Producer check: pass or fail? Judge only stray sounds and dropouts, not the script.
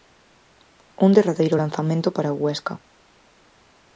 pass